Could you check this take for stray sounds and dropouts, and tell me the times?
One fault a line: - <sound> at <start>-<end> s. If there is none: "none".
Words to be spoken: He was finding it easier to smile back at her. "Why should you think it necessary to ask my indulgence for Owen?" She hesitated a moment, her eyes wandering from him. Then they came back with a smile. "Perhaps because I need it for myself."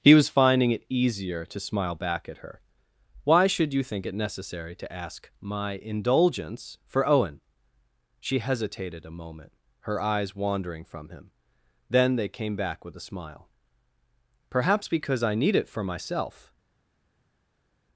none